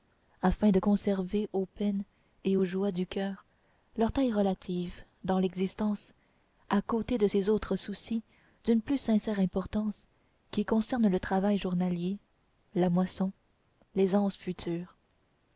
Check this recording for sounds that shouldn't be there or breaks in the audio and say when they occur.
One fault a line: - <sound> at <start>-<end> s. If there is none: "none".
none